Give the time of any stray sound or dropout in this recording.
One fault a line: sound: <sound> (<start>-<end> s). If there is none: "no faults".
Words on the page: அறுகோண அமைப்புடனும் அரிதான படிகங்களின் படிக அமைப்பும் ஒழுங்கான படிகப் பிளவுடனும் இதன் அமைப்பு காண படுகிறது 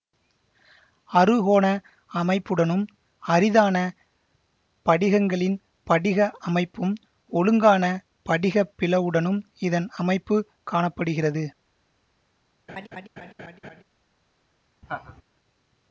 sound: laugh (12.7-13.8 s)
sound: laugh (14.8-15.2 s)